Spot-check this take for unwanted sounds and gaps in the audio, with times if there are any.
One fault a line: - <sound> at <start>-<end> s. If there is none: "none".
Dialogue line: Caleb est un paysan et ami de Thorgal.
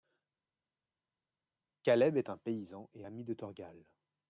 none